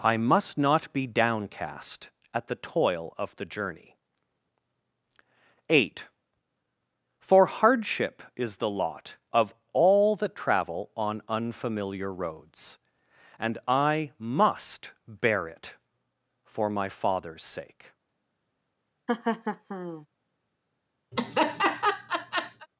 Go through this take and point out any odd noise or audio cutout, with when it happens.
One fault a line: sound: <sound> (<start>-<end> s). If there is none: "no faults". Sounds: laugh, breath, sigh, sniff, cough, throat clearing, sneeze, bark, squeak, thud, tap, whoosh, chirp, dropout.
sound: laugh (19.1-20.1 s)
sound: laugh (21.1-22.7 s)